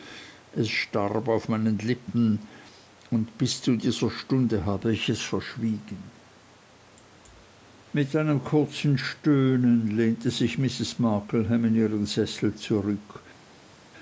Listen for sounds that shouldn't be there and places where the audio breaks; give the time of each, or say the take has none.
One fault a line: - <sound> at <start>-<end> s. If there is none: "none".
none